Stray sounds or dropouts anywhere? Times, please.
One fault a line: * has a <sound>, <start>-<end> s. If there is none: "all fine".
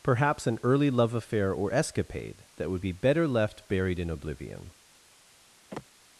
* has a sigh, 5.7-5.9 s